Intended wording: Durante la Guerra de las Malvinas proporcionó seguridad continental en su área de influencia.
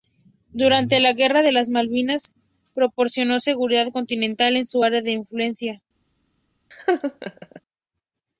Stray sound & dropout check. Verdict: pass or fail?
fail